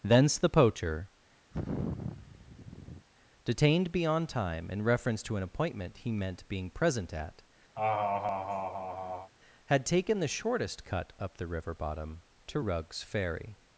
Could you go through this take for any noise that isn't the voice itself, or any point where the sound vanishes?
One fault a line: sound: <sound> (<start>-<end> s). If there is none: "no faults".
sound: sigh (1.5-3.1 s)
sound: laugh (7.8-9.3 s)